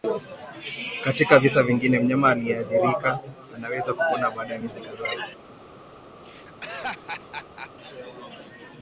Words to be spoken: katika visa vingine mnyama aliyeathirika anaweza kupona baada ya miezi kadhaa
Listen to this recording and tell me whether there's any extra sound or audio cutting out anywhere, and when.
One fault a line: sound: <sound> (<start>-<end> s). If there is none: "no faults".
sound: laugh (6.2-7.7 s)